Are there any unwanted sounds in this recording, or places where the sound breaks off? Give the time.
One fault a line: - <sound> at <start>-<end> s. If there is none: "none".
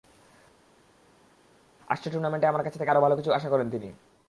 none